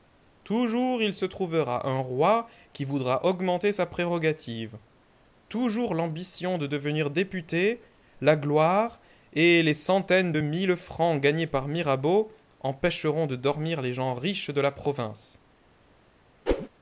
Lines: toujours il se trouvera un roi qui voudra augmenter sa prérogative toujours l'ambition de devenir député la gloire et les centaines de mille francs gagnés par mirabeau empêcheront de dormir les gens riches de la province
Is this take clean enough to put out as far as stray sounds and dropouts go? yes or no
no